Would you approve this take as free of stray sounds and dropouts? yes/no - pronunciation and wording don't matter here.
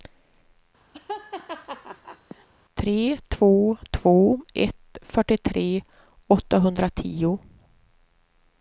no